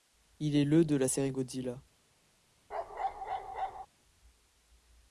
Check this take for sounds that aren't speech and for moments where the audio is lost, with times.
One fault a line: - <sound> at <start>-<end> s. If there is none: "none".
- bark at 2.7-3.9 s